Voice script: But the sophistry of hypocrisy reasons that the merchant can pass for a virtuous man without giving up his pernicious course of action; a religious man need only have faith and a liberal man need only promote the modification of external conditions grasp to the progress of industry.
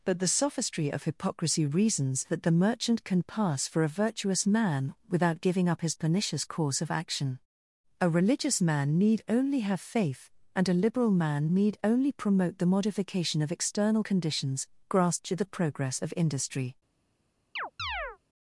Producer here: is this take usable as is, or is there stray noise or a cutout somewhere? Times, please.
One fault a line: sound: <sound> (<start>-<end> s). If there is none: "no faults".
sound: chirp (17.6-18.2 s)